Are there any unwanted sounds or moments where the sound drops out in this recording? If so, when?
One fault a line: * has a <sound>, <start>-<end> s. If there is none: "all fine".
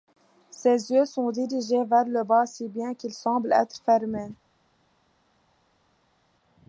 all fine